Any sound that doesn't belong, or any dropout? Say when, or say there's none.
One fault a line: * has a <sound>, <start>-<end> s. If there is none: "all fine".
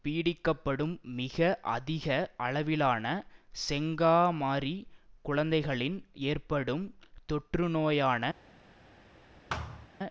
* has a thud, 9.5-9.9 s